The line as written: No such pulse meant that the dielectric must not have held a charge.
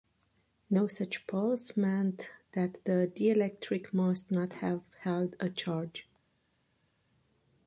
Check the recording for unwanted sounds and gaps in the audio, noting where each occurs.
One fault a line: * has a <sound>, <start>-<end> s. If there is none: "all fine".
all fine